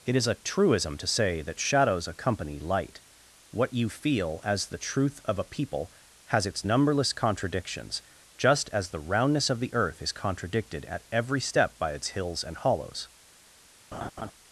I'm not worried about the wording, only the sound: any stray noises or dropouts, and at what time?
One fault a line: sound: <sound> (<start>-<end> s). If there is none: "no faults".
sound: laugh (13.9-14.3 s)